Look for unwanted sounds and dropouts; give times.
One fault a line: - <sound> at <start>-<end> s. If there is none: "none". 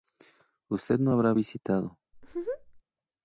- laugh at 2.1-2.8 s